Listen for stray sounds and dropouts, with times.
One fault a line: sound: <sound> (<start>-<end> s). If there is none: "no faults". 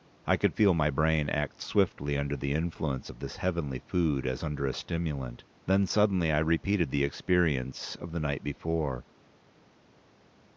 no faults